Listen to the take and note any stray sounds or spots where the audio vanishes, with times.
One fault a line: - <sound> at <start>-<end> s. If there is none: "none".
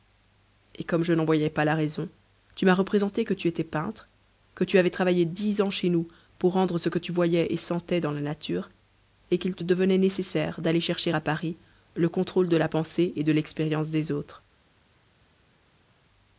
none